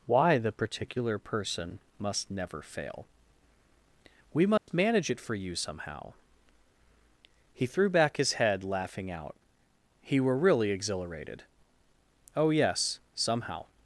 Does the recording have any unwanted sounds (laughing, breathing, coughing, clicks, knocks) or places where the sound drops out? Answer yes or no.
yes